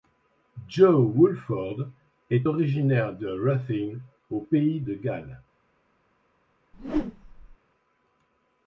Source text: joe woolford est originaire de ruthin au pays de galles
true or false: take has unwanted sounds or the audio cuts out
true